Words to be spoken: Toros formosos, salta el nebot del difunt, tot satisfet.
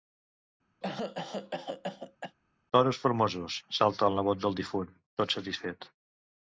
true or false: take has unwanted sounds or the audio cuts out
true